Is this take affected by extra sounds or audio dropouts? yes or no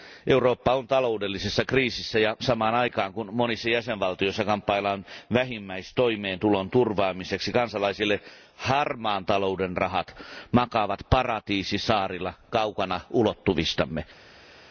no